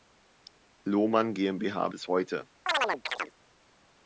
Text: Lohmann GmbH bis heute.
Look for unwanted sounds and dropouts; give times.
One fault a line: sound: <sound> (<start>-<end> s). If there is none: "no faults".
sound: chirp (2.7-3.3 s)